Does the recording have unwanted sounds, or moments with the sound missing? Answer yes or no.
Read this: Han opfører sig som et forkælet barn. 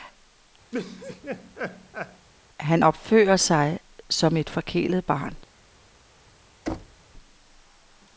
yes